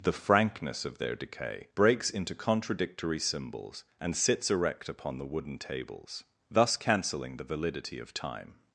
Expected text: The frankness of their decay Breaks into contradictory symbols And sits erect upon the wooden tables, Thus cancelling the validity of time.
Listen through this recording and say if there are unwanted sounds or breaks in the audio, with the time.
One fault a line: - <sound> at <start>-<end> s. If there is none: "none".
none